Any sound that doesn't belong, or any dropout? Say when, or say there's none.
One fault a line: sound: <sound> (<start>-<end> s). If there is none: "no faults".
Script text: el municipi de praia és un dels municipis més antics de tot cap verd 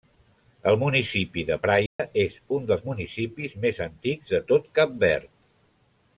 sound: dropout (1.9-2.0 s)